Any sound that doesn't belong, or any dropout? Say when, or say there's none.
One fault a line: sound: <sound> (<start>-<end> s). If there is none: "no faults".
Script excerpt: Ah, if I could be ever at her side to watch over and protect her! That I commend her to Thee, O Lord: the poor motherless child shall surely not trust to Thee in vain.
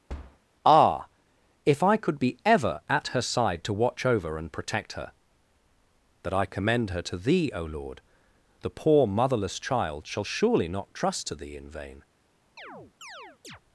sound: thud (0.1-0.4 s)
sound: chirp (12.6-13.6 s)